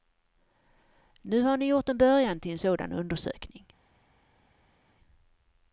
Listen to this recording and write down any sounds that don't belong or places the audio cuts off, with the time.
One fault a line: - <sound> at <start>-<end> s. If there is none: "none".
none